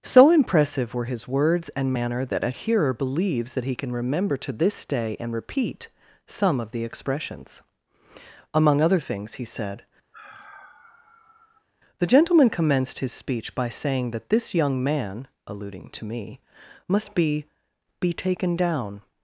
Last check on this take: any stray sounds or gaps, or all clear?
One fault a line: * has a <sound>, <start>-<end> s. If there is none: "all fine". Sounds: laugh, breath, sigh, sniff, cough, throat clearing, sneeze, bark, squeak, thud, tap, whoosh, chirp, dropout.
* has a sigh, 10.1-11.7 s